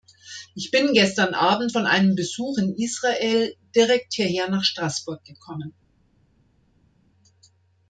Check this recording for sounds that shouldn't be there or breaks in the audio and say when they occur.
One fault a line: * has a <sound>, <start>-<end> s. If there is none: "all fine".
all fine